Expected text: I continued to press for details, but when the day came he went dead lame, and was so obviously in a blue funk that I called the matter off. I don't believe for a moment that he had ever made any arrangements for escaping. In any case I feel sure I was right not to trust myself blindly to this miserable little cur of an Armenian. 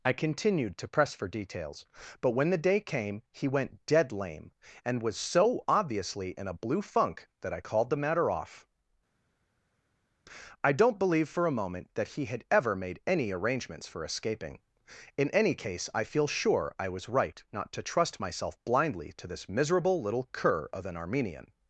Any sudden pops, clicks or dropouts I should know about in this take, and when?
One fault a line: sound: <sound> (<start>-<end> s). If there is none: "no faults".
no faults